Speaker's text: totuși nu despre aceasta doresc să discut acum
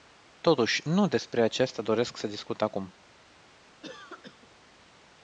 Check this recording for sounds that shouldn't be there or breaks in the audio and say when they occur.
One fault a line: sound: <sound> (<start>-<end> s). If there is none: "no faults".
sound: cough (3.8-4.5 s)